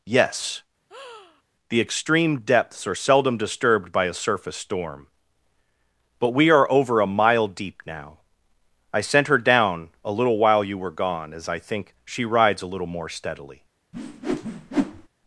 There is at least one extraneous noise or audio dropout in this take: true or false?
true